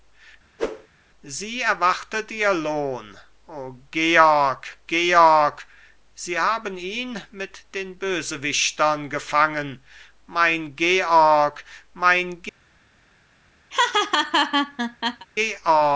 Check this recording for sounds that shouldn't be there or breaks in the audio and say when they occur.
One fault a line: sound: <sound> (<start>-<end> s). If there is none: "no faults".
sound: whoosh (0.6-0.9 s)
sound: laugh (13.7-15.3 s)